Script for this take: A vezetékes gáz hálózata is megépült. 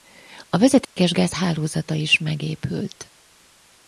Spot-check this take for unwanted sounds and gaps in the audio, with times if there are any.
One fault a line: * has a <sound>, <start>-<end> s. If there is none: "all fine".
* has a dropout, 0.8-1.0 s